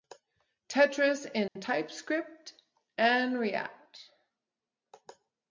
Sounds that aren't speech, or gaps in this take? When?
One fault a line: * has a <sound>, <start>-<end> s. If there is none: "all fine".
* has a dropout, 1.5-1.6 s